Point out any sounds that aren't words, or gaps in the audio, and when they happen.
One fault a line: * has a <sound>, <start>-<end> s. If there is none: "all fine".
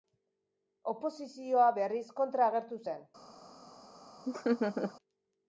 * has a laugh, 4.3-4.9 s